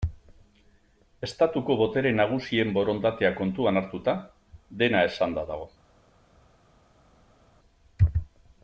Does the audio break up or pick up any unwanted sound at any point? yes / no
no